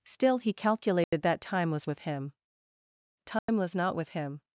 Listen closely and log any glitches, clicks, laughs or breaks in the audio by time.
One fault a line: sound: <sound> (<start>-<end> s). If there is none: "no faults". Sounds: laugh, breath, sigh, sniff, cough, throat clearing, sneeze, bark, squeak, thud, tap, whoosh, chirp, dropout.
sound: dropout (1.0-1.1 s)
sound: dropout (3.4-3.5 s)